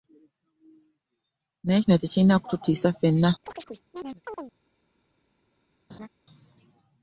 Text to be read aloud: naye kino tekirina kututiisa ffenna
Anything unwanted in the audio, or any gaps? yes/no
yes